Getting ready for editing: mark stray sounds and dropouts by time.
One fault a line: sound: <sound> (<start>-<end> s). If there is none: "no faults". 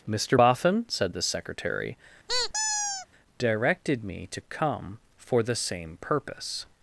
sound: squeak (2.3-3.1 s)